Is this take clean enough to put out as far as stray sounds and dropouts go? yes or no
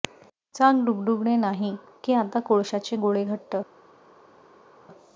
yes